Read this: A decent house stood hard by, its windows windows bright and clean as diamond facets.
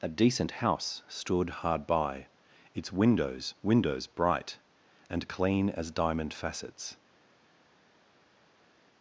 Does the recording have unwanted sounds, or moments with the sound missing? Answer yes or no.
no